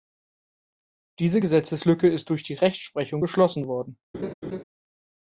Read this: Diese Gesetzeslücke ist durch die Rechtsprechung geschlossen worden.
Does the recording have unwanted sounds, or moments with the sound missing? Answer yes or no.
yes